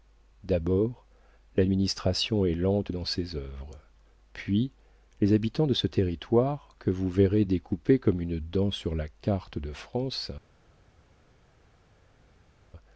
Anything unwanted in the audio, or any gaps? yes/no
no